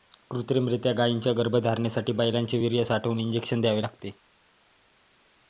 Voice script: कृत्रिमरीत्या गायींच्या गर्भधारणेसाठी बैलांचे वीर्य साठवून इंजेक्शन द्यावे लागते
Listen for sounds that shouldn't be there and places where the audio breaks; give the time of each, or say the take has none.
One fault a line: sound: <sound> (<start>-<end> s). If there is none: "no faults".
no faults